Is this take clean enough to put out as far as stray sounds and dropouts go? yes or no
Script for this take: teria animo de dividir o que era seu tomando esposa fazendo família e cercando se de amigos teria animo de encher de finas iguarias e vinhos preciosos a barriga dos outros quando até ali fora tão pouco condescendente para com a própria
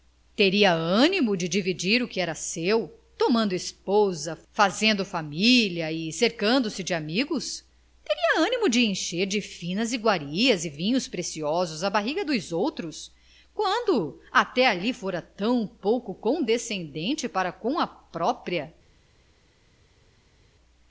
yes